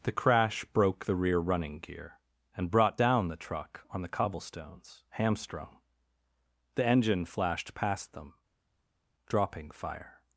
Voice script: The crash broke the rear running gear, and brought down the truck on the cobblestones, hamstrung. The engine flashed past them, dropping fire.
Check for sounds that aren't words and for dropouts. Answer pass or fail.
pass